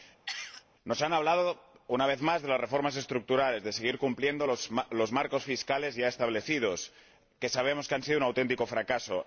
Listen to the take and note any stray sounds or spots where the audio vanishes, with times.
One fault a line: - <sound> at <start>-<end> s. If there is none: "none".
- cough at 0.3-0.6 s